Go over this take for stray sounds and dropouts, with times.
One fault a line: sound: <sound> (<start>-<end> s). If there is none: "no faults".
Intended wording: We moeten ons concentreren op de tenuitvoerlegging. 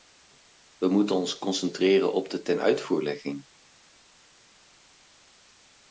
no faults